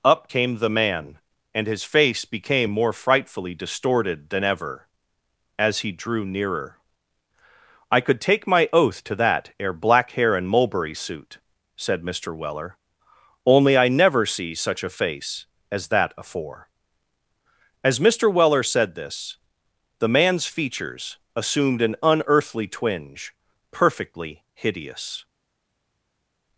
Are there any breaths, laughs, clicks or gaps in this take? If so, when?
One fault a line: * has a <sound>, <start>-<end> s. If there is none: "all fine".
all fine